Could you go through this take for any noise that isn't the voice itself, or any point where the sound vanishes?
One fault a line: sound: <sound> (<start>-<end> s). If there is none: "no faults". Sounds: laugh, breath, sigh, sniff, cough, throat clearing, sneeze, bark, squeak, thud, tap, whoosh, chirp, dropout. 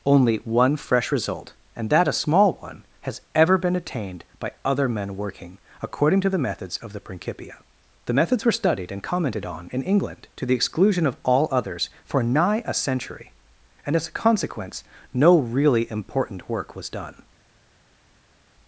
no faults